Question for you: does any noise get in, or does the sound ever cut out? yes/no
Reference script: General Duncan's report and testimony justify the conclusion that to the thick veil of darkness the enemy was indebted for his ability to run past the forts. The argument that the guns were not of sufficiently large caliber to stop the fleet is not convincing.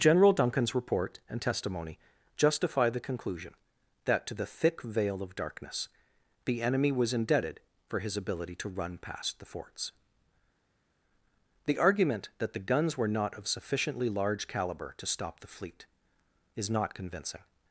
no